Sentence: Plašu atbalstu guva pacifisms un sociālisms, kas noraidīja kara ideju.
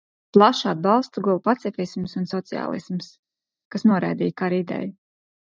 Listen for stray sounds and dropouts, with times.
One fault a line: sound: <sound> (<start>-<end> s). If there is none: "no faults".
no faults